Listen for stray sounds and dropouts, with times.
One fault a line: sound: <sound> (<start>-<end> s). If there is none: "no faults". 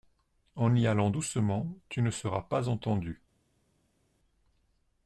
no faults